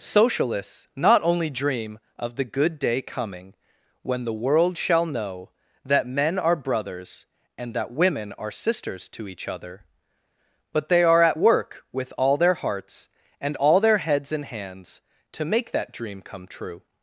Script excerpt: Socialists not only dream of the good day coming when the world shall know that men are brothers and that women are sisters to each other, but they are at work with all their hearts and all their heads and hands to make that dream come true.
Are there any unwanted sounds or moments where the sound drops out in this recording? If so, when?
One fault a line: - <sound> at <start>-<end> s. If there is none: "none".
none